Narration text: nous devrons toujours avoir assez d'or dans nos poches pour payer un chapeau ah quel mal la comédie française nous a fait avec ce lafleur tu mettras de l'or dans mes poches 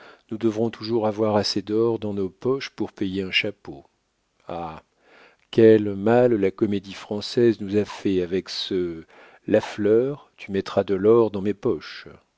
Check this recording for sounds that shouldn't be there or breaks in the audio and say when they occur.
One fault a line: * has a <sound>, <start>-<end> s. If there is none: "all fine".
all fine